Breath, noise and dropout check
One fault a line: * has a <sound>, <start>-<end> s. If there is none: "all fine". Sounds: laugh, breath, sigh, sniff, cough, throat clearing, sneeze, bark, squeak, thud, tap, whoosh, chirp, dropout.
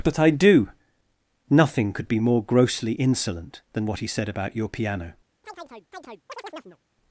* has a chirp, 5.4-6.8 s